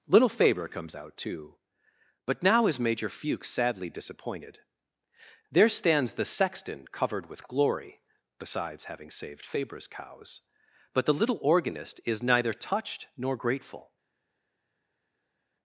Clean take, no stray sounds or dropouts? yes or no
yes